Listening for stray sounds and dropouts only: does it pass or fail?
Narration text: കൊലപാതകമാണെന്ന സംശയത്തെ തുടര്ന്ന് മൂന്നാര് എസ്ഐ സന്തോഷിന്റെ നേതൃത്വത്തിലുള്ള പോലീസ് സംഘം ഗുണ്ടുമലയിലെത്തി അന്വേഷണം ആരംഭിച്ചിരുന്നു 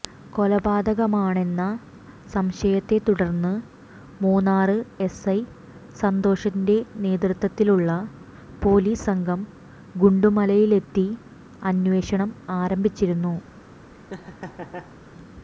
fail